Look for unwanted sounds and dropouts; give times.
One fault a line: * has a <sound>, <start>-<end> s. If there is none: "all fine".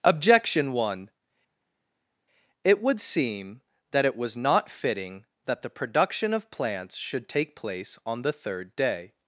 all fine